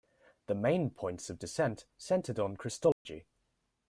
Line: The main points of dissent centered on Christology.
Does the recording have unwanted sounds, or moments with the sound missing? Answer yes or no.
yes